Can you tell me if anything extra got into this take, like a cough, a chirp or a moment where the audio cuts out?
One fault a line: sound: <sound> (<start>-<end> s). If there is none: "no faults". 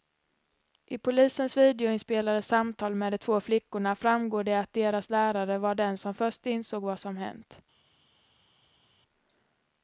no faults